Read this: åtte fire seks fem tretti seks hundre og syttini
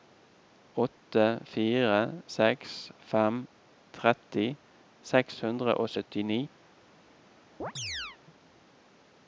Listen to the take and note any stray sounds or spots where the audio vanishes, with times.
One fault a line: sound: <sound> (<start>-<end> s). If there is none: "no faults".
sound: chirp (7.6-8.2 s)